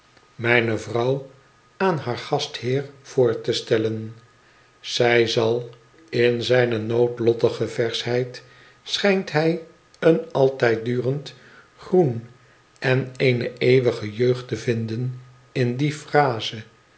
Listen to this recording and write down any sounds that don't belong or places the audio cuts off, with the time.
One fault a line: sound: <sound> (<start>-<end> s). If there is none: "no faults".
no faults